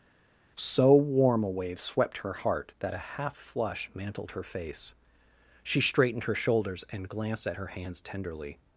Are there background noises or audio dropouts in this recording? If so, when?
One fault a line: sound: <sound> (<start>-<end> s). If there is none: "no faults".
no faults